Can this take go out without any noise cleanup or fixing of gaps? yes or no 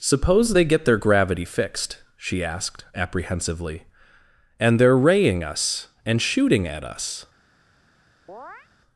no